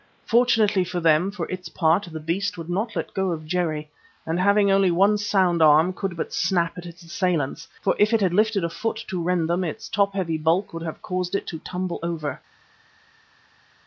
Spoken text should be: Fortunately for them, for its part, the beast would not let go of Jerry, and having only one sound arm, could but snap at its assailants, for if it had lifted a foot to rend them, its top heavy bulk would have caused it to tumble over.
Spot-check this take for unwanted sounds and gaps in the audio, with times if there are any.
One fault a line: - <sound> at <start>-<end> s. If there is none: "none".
none